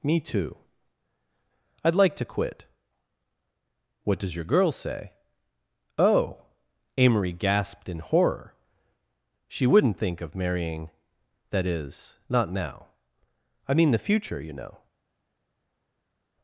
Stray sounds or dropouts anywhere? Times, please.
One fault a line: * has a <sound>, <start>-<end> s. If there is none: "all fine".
all fine